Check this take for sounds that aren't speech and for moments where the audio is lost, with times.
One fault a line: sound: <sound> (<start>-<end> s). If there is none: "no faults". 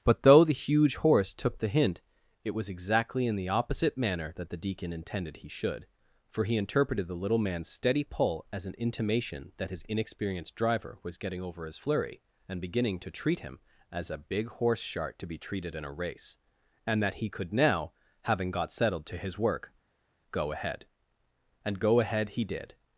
no faults